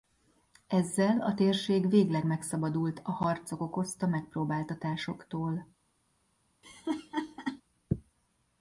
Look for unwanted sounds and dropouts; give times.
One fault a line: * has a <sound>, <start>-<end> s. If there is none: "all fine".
* has a laugh, 6.6-7.6 s